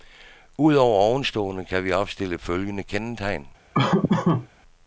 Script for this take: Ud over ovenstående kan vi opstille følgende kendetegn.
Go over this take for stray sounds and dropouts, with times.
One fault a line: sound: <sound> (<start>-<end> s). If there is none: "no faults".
sound: laugh (3.7-4.5 s)